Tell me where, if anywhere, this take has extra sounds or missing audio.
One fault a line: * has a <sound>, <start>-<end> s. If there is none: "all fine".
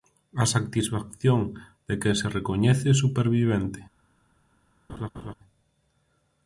* has a laugh, 4.9-5.3 s